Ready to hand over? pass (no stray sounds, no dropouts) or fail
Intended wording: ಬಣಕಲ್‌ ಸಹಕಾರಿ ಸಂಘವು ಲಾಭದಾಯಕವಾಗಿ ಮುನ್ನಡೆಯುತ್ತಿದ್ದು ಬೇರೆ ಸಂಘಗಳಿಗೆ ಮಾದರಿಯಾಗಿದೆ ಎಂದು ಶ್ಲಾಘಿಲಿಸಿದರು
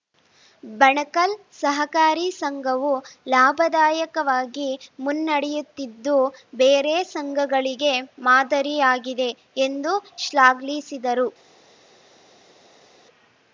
pass